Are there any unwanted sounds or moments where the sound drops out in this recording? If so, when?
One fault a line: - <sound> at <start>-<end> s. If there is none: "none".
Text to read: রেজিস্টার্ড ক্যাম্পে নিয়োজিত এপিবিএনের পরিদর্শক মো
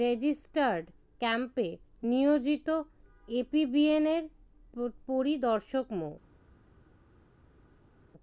none